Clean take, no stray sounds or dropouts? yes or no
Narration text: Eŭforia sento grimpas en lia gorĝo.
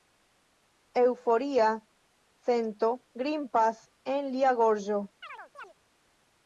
no